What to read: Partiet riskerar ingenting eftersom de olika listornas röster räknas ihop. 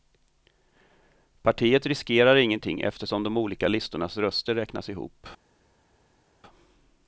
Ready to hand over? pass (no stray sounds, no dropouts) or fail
pass